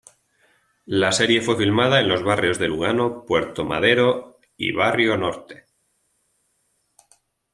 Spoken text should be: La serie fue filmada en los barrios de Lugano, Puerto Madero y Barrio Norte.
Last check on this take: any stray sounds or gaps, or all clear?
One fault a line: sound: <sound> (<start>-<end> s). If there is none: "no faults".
no faults